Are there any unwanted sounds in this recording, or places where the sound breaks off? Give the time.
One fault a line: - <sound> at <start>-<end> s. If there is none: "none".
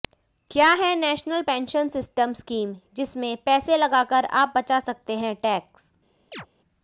- chirp at 6.3-6.5 s